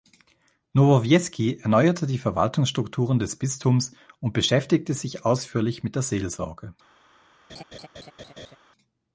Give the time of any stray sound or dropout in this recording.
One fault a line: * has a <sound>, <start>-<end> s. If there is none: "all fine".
* has a laugh, 7.5-8.6 s